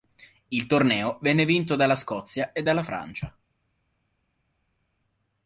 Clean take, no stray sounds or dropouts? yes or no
yes